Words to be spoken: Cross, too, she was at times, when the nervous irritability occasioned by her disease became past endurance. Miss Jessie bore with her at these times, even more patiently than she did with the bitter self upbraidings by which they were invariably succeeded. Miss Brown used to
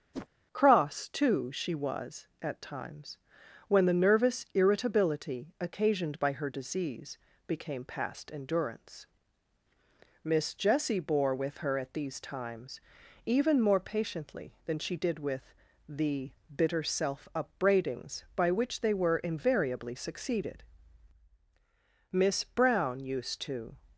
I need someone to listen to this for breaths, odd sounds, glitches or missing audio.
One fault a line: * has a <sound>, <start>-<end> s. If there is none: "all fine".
* has a whoosh, 0.1-0.3 s